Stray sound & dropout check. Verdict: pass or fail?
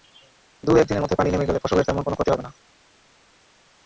pass